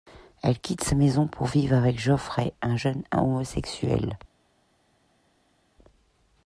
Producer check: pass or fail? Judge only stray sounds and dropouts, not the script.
pass